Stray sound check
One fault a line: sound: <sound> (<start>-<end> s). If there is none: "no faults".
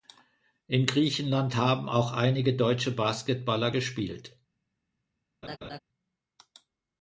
sound: laugh (5.4-5.8 s)